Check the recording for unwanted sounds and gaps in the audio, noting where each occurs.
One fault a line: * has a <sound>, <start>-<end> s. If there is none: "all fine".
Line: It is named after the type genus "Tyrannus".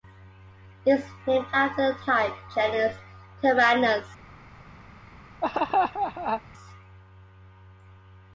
* has a laugh, 5.4-6.4 s